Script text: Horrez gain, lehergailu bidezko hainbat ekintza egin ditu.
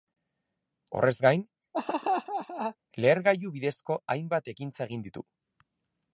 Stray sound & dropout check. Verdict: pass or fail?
fail